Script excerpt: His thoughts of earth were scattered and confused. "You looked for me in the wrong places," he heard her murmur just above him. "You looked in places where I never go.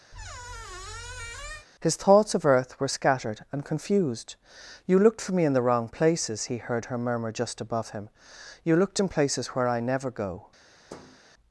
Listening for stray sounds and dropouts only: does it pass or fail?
fail